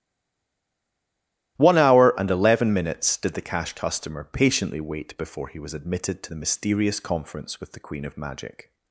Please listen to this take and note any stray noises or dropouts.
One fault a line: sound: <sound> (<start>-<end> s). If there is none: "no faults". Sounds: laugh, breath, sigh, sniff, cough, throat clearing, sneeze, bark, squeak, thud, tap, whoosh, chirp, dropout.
no faults